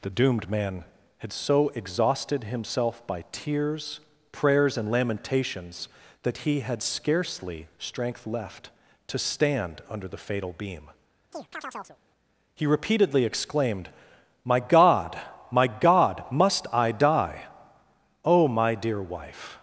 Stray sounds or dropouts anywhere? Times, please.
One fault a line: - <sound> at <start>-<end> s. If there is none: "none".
- chirp at 11.3-12.0 s